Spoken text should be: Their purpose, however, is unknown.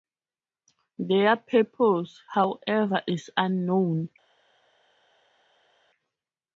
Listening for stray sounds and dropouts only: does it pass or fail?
pass